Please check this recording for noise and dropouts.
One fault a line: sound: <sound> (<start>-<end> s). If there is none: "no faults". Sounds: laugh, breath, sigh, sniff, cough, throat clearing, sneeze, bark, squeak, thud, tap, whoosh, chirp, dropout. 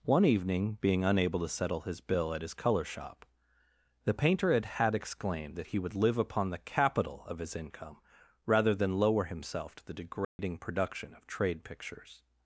sound: dropout (10.2-10.4 s)